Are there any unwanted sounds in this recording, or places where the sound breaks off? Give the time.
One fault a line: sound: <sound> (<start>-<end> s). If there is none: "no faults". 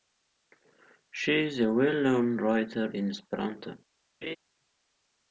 sound: laugh (4.2-4.4 s)